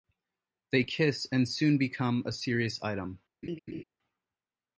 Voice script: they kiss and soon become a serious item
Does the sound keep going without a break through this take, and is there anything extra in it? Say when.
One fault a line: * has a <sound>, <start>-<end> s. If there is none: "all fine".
* has a laugh, 3.4-3.8 s